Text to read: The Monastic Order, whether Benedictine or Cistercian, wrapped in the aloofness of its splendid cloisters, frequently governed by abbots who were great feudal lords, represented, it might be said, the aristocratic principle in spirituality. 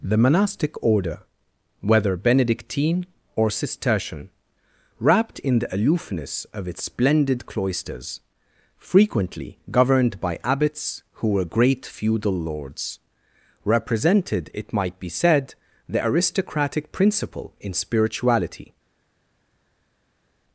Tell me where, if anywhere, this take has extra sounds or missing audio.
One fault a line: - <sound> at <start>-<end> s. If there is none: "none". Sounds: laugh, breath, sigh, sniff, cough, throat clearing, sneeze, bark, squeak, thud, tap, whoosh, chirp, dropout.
none